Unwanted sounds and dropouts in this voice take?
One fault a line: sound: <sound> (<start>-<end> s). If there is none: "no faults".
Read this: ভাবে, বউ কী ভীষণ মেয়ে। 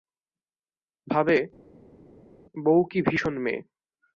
no faults